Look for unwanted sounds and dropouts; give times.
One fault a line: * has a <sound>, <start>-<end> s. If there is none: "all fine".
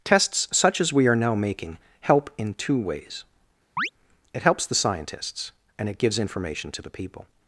* has a chirp, 3.8-3.9 s